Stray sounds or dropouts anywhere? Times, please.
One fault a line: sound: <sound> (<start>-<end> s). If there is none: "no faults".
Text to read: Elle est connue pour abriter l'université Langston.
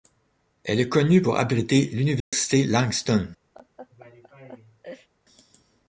sound: dropout (2.2-2.3 s)
sound: laugh (3.5-5.1 s)